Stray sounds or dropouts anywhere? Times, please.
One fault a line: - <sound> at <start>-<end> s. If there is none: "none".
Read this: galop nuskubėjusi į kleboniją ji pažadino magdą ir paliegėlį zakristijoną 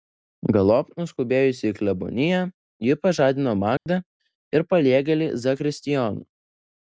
- dropout at 3.8-3.9 s